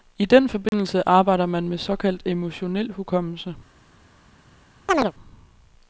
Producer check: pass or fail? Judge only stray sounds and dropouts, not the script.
fail